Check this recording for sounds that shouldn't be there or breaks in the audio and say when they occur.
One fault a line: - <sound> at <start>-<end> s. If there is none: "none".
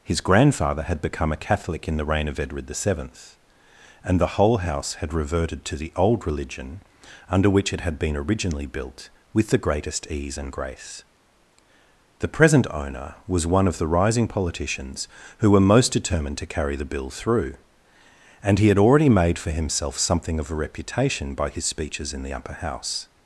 none